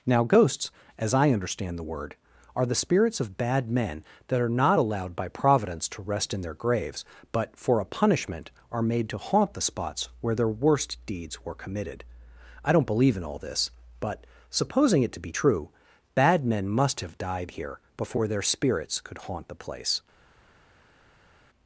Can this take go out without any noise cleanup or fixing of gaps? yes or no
yes